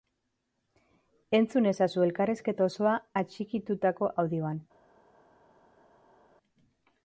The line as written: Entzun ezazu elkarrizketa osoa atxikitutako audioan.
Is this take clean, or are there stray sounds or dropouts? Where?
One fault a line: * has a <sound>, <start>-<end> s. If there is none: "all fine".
all fine